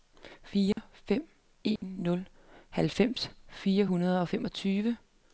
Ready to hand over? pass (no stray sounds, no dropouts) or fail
fail